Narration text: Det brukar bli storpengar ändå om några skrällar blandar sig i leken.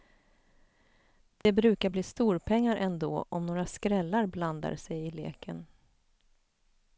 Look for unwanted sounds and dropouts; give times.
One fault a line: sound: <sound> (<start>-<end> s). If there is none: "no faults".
sound: dropout (1.4-1.5 s)